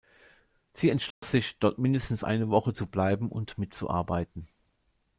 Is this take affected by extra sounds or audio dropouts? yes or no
yes